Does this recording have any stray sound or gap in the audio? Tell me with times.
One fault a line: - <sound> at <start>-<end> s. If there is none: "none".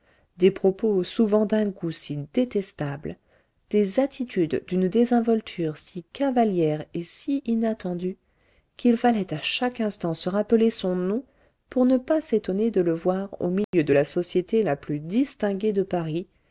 - dropout at 13.6-13.7 s